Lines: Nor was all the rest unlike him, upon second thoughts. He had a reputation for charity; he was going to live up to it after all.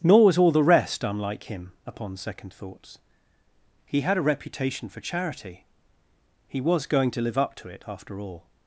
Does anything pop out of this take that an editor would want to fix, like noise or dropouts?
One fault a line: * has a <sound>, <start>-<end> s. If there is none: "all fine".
all fine